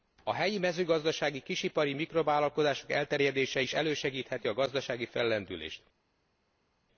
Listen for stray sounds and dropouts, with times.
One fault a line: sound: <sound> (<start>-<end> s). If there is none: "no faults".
no faults